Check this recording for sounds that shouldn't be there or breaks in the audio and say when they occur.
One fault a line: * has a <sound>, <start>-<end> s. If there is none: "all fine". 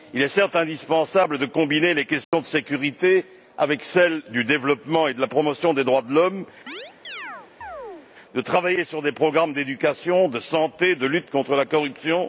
* has a dropout, 2.2-2.3 s
* has a chirp, 6.7-8.1 s